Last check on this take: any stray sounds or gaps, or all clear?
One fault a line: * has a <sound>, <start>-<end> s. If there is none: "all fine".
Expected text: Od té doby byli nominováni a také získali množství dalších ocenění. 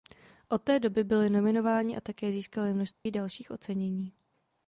* has a dropout, 2.9-3.1 s